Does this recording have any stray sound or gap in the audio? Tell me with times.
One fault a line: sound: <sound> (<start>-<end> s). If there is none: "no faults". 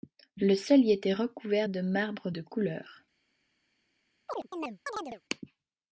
sound: chirp (4.3-5.2 s)